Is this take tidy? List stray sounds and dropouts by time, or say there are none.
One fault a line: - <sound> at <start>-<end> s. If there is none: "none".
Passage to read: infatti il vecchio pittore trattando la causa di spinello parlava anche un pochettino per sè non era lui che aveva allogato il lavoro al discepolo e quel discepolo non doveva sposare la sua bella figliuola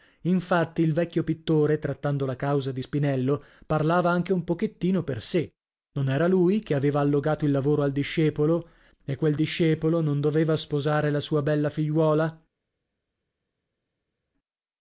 none